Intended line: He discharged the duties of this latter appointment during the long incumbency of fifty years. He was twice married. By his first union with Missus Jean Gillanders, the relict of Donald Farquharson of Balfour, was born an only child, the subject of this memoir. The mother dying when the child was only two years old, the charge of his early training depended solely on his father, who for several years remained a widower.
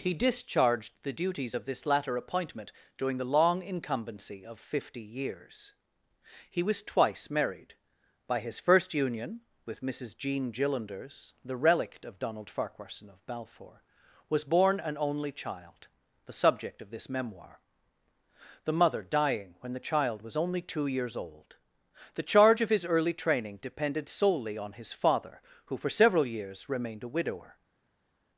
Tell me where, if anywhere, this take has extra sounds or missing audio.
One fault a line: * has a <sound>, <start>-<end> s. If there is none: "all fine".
all fine